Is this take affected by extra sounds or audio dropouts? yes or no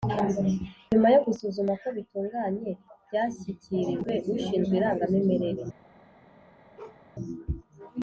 yes